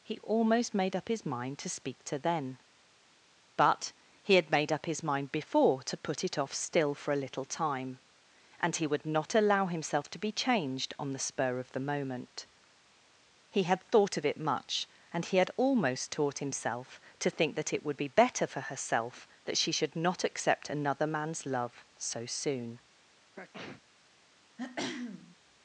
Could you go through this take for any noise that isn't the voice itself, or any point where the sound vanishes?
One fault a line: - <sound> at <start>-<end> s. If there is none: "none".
- sneeze at 23.3-23.8 s
- throat clearing at 24.6-25.4 s